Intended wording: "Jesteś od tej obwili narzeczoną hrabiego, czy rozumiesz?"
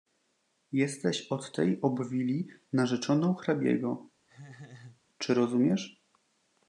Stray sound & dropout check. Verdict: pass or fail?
fail